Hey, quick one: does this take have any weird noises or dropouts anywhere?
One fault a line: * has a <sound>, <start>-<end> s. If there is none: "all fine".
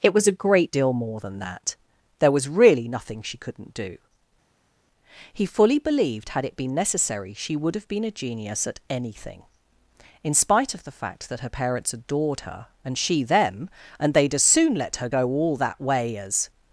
all fine